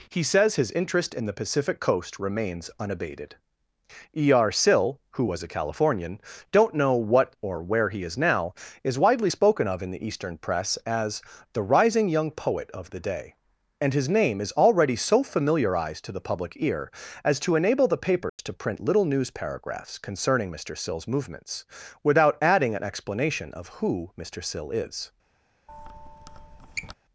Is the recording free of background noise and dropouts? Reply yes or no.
no